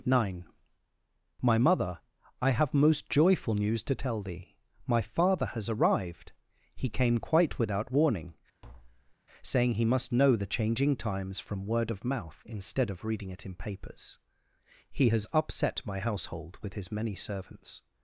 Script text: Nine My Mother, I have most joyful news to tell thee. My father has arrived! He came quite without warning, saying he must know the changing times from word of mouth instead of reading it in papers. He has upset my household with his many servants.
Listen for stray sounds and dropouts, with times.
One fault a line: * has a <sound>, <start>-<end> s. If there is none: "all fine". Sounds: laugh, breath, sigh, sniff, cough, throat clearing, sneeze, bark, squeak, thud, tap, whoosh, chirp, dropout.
* has a tap, 8.6-9.2 s